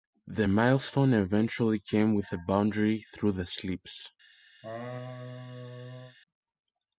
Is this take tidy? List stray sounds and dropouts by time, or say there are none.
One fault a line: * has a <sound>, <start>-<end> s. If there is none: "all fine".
* has a laugh, 4.6-6.2 s